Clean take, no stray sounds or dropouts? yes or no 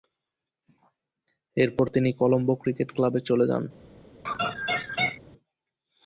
no